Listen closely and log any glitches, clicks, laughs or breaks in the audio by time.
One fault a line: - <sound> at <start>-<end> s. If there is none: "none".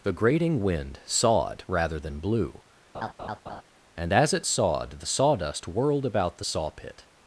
- laugh at 2.9-3.6 s